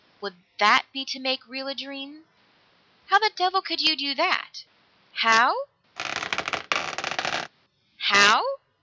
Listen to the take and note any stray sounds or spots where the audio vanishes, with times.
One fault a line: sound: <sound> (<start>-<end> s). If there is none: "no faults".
sound: squeak (6.0-7.5 s)